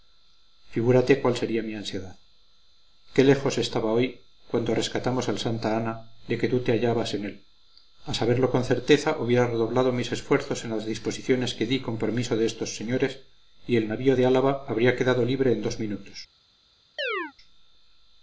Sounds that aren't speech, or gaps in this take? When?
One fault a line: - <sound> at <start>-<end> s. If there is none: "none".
- chirp at 17.0-17.3 s